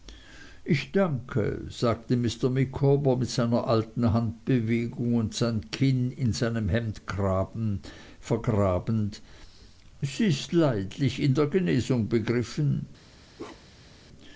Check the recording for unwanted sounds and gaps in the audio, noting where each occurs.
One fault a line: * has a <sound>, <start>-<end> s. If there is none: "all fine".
* has a bark, 13.4-14.0 s